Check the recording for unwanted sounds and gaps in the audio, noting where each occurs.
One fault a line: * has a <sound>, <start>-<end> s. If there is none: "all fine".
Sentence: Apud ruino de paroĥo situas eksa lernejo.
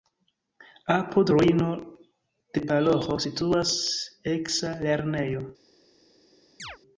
* has a chirp, 6.6-6.8 s